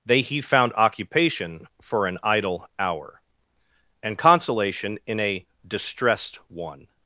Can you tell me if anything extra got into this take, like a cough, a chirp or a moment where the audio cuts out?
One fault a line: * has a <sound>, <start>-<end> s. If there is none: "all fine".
all fine